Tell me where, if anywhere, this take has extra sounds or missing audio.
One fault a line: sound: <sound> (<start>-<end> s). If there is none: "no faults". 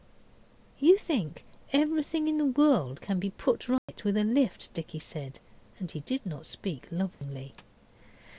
sound: dropout (3.8-3.9 s)
sound: dropout (7.1-7.2 s)